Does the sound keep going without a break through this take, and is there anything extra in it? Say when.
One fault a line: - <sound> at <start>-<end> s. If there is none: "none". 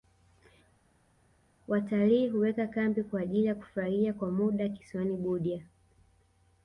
none